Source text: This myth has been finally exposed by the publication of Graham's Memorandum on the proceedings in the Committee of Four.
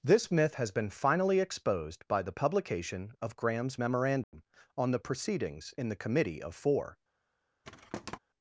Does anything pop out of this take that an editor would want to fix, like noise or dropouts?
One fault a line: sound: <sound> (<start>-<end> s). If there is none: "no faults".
sound: dropout (4.2-4.3 s)
sound: thud (7.6-8.2 s)